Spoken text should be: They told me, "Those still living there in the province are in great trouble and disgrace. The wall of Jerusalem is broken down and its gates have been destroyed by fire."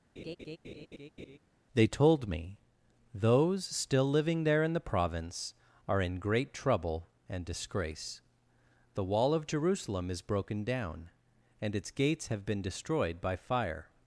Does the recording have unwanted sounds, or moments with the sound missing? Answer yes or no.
yes